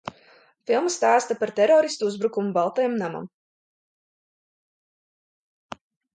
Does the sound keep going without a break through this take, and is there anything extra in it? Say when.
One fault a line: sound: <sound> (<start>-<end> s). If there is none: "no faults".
no faults